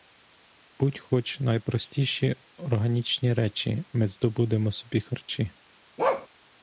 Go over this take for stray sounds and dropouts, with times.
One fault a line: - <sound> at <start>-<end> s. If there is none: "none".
- bark at 6.0-6.3 s